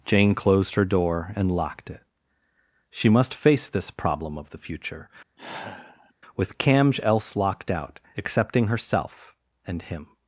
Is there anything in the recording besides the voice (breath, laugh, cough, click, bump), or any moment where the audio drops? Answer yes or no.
yes